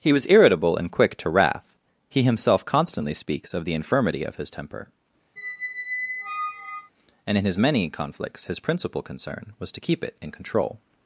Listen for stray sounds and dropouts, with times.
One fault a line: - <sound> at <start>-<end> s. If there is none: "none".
- squeak at 5.4-6.9 s